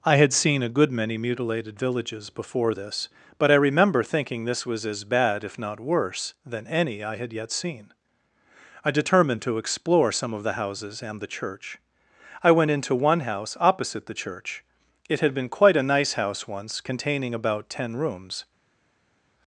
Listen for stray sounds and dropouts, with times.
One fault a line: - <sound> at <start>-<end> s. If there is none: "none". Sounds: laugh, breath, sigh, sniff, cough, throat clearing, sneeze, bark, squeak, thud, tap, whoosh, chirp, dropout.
none